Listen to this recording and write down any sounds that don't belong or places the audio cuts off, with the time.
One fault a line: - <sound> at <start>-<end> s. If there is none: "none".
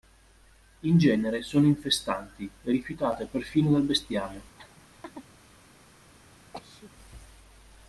- laugh at 4.6-5.3 s
- sneeze at 6.5-6.9 s